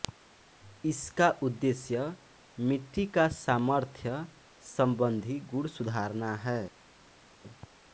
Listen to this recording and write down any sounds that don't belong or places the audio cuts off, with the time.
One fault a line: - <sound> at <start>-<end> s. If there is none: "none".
none